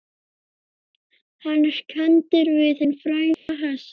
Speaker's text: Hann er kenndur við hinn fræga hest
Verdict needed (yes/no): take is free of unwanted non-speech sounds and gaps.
no